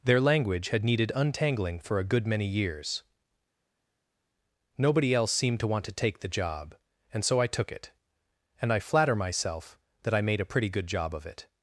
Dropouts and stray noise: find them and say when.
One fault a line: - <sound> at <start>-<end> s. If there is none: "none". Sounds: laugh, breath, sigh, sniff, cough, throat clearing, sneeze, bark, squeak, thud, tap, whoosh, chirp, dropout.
none